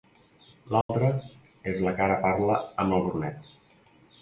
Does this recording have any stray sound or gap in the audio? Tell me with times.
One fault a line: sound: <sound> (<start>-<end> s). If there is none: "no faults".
sound: dropout (0.8-0.9 s)